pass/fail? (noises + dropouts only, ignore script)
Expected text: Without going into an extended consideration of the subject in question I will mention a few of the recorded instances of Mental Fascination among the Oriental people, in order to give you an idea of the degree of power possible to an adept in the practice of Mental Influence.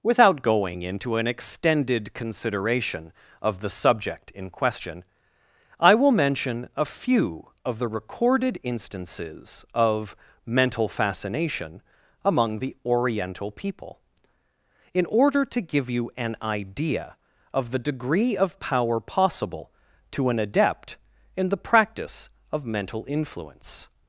pass